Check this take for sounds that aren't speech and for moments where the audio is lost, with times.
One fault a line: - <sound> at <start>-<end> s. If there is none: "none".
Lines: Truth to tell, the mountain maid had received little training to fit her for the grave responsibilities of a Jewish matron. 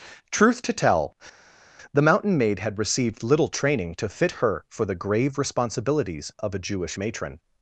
none